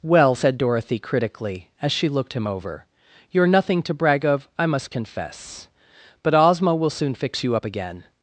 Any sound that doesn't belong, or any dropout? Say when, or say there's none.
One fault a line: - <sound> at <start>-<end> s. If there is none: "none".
none